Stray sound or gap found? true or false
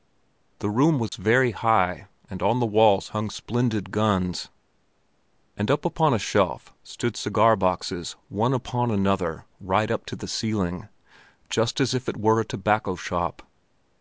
true